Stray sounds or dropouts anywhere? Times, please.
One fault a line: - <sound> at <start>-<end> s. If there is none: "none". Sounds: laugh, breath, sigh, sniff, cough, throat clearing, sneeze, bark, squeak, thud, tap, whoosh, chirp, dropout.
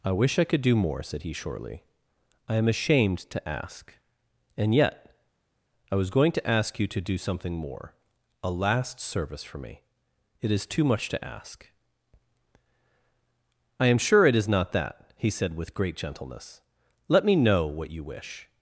none